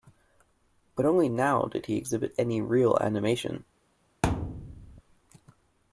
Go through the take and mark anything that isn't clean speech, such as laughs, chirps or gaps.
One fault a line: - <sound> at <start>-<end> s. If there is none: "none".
- thud at 4.2-5.0 s